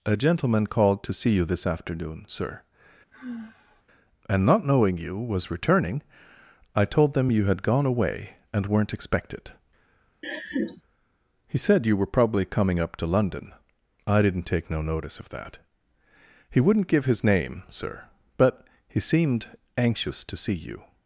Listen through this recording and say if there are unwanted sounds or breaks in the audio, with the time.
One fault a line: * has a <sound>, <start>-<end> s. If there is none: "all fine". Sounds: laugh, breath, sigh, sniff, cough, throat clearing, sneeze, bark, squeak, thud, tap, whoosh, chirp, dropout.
* has a sigh, 3.1-3.8 s
* has a laugh, 10.2-10.8 s